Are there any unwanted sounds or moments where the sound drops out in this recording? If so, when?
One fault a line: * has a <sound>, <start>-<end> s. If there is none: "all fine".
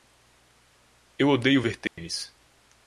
* has a dropout, 1.9-2.0 s